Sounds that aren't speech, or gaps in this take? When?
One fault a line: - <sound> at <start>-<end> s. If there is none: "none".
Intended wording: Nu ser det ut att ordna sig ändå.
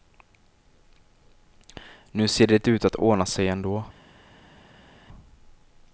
none